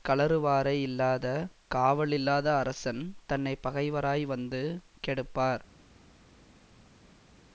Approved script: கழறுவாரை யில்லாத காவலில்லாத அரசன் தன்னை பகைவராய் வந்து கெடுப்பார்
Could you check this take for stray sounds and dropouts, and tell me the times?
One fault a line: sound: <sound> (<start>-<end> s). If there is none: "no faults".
no faults